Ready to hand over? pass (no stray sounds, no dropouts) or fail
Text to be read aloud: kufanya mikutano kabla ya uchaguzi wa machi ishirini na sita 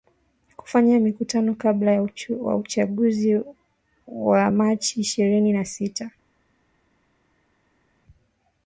pass